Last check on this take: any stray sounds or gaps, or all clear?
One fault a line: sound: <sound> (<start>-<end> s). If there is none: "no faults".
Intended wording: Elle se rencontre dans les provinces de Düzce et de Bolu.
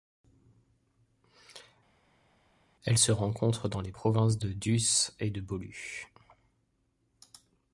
no faults